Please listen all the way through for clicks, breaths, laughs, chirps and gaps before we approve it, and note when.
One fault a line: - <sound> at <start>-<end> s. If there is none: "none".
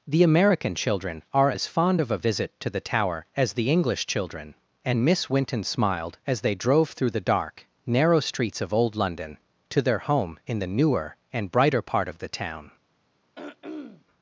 - throat clearing at 13.3-14.0 s